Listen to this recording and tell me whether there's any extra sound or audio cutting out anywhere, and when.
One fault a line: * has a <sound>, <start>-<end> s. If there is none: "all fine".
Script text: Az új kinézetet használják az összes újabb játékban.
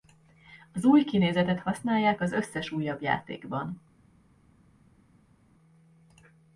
all fine